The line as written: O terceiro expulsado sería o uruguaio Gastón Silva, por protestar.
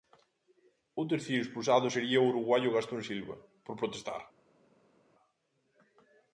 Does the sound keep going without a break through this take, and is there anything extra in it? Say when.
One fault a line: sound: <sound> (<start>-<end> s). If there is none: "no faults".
no faults